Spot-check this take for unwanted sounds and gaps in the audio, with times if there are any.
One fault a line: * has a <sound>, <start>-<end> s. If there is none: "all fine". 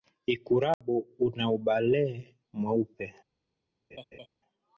* has a dropout, 0.7-0.8 s
* has a laugh, 3.9-4.3 s